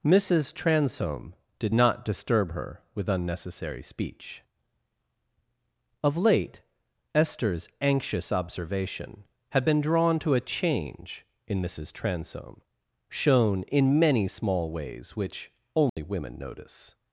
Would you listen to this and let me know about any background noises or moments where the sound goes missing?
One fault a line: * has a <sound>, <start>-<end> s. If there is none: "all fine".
* has a dropout, 15.9-16.0 s